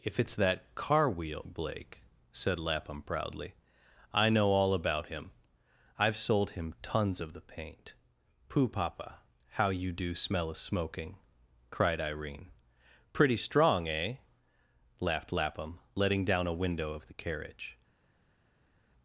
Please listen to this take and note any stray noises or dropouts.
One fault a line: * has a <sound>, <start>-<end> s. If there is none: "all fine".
all fine